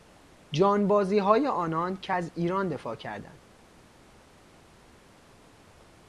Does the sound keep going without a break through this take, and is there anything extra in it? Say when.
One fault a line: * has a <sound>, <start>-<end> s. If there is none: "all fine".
all fine